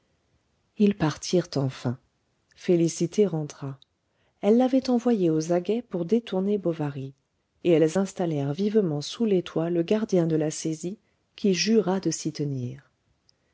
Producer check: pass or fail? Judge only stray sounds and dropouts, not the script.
pass